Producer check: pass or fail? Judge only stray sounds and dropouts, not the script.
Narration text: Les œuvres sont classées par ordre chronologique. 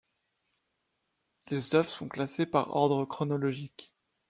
pass